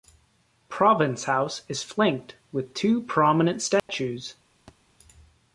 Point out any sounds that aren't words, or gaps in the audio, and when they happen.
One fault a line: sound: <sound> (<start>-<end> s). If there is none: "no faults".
sound: dropout (3.8-3.9 s)
sound: thud (4.7-4.8 s)